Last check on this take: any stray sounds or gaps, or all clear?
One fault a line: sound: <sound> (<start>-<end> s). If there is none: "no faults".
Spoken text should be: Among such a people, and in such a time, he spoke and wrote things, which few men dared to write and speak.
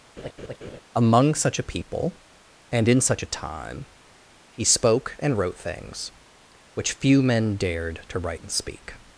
sound: laugh (0.2-0.8 s)